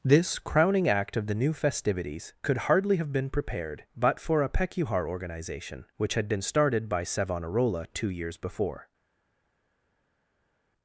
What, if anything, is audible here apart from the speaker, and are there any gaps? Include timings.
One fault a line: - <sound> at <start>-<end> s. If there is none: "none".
none